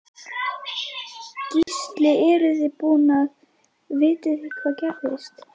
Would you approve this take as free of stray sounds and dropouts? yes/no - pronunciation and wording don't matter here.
no